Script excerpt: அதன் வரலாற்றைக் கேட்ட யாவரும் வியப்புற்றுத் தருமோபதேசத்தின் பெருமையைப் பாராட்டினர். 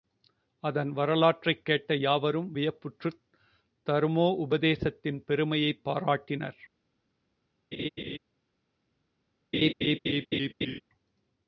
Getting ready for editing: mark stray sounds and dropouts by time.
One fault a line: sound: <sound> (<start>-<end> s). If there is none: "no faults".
sound: laugh (7.7-8.2 s)
sound: laugh (9.5-10.8 s)